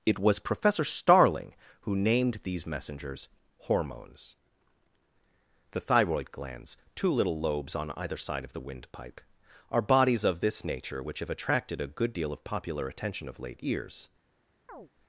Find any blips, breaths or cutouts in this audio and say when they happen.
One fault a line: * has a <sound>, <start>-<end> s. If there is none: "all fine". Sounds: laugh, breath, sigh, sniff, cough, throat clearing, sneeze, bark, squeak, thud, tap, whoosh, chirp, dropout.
* has a chirp, 14.7-14.9 s